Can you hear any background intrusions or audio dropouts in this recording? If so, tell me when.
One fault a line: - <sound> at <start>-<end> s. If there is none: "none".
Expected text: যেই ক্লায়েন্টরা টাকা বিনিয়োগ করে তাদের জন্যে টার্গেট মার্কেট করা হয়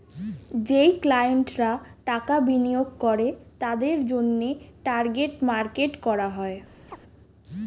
- chirp at 6.9-7.0 s